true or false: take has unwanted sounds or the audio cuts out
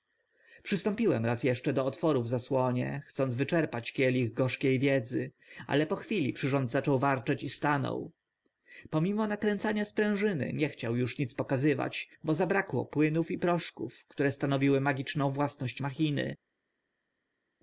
false